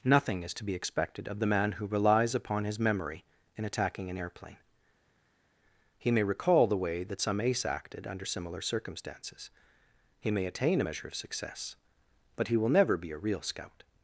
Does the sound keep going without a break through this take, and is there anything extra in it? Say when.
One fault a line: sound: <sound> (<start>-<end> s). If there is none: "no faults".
no faults